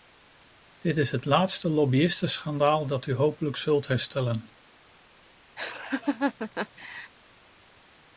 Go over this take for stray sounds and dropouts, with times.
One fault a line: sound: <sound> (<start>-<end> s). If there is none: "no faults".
sound: laugh (5.6-7.1 s)